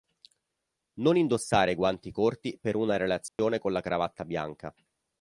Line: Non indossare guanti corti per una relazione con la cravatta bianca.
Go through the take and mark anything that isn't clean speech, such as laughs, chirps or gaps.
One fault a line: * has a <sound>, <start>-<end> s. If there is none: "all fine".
* has a dropout, 3.3-3.4 s